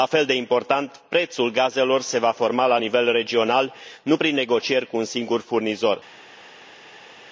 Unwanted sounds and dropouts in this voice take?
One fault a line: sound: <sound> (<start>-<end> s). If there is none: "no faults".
no faults